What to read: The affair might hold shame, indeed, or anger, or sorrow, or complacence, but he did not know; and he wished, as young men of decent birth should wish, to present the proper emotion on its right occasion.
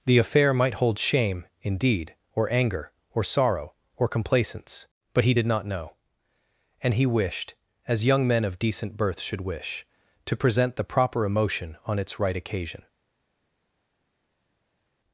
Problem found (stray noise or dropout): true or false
false